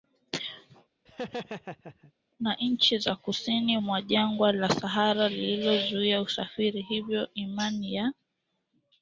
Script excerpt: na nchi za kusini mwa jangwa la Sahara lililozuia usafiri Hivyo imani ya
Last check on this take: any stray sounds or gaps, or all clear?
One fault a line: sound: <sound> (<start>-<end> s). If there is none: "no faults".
sound: laugh (1.1-2.1 s)